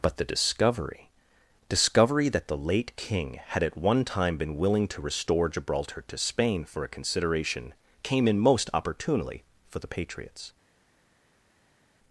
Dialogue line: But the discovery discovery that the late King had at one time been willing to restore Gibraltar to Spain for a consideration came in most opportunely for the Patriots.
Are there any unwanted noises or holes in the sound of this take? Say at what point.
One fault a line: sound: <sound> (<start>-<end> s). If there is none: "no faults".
no faults